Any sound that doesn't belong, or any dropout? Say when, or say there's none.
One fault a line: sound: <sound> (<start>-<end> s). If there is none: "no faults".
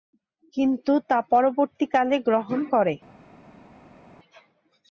no faults